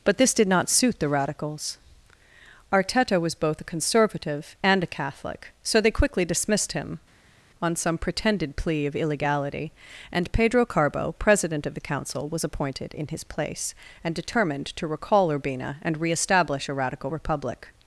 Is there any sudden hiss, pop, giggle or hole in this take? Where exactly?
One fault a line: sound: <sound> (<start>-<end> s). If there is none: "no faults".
no faults